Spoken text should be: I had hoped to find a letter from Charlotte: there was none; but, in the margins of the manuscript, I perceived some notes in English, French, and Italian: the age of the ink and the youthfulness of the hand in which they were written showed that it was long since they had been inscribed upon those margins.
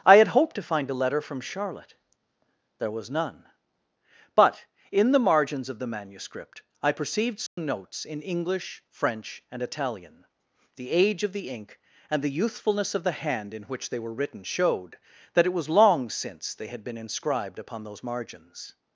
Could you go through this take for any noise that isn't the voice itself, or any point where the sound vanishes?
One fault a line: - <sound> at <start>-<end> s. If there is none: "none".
- dropout at 7.5-7.6 s